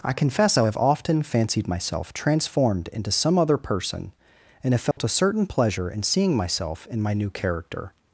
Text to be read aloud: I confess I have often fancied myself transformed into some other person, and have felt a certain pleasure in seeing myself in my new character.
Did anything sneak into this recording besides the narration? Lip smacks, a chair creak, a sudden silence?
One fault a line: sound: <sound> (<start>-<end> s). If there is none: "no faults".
sound: dropout (4.9-5.0 s)